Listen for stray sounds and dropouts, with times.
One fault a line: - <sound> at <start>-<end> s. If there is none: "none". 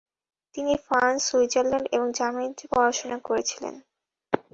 none